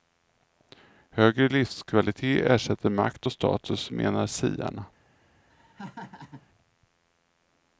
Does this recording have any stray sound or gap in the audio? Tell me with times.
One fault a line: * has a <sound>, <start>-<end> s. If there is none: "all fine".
* has a laugh, 5.5-6.5 s